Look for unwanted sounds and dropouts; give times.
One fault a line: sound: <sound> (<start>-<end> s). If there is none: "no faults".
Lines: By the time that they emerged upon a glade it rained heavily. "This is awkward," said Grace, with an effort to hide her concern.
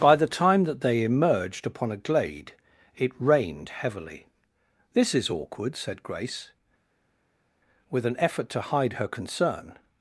no faults